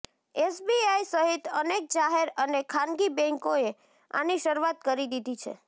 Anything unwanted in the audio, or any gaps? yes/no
no